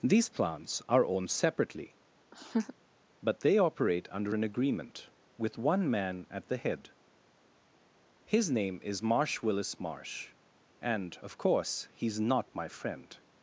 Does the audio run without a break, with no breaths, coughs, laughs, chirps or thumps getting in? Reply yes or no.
no